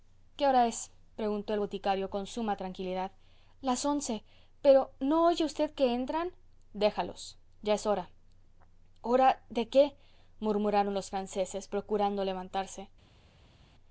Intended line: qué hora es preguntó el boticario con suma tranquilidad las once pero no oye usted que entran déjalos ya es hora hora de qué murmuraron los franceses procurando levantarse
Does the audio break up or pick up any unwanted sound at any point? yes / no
no